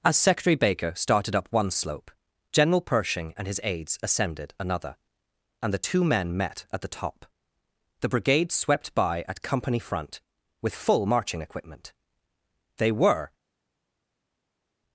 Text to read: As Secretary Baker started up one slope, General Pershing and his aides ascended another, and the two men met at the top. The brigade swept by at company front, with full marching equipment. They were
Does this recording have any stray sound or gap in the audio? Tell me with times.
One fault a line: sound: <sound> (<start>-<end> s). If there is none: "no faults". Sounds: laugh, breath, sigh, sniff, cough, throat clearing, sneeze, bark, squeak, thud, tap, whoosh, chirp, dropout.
no faults